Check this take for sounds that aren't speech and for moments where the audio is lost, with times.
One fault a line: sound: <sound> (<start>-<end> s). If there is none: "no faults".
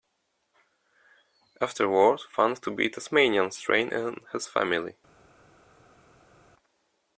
no faults